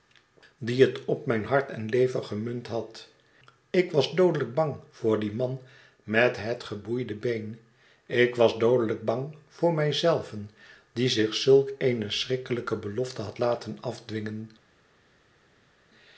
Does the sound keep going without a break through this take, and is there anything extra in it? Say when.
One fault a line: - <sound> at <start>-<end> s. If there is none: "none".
none